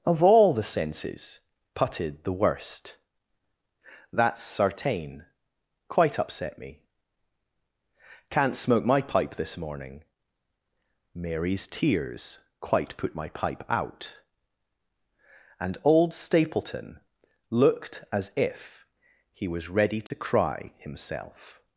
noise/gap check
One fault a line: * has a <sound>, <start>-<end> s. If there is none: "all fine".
* has a dropout, 20.1-20.1 s